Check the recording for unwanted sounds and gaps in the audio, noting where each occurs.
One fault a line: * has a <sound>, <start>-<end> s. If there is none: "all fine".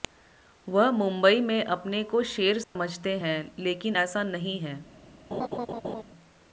* has a dropout, 2.6-2.8 s
* has a laugh, 5.3-6.0 s